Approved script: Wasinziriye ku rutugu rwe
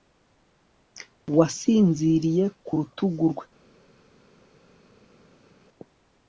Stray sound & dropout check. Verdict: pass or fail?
pass